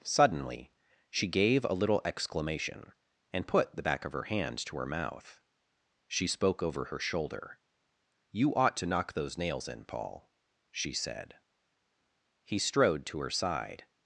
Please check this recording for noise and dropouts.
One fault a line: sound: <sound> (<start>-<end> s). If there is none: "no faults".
no faults